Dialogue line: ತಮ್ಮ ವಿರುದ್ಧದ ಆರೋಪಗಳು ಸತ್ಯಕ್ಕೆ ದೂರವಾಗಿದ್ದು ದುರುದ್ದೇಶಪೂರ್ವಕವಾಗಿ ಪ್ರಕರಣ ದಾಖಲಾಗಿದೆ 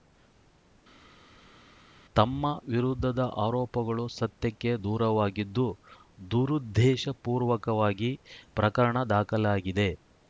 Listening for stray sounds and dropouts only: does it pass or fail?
pass